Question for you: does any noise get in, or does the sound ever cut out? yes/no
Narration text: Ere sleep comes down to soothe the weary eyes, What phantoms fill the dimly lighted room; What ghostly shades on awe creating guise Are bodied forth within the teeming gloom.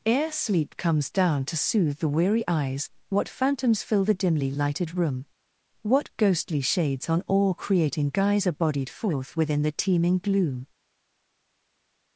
no